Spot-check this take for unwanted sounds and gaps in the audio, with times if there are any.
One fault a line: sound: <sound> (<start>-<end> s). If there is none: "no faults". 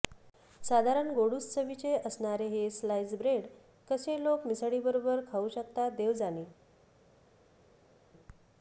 no faults